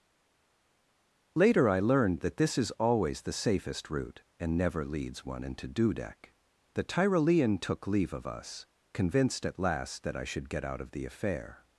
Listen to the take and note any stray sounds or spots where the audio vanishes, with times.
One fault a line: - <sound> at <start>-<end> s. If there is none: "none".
none